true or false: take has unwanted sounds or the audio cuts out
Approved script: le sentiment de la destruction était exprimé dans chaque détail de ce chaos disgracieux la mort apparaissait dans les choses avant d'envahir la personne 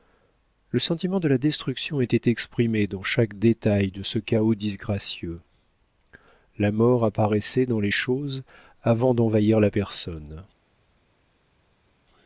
false